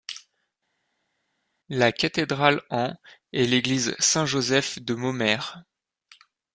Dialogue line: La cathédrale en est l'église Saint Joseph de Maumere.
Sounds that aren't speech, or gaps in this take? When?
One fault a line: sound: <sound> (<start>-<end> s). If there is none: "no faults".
no faults